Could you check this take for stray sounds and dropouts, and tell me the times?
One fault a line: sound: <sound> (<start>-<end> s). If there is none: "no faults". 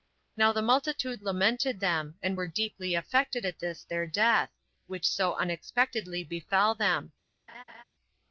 sound: laugh (7.5-7.8 s)